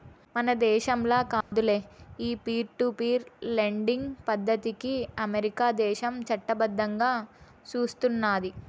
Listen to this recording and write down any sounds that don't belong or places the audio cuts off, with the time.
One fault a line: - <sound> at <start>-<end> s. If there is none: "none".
- dropout at 1.4-1.5 s